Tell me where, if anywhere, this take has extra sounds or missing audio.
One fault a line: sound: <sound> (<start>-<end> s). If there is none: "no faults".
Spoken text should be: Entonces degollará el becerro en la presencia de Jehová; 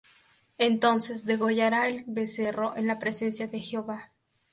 no faults